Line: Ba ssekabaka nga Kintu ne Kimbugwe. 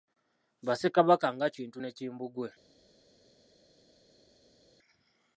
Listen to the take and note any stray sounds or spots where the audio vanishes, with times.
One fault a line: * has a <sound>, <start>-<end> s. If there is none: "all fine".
all fine